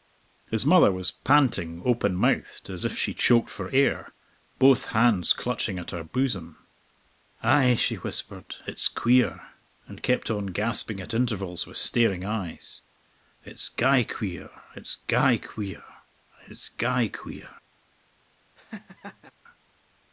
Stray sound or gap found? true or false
true